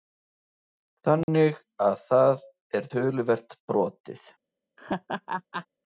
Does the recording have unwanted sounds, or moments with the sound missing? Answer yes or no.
yes